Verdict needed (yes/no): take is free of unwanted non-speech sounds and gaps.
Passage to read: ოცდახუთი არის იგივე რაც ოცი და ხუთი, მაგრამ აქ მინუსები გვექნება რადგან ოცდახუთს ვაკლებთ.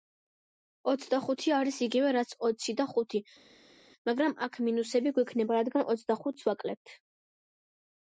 yes